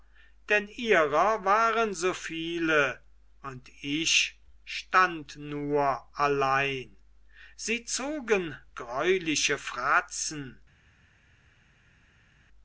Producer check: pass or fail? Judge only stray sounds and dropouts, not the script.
pass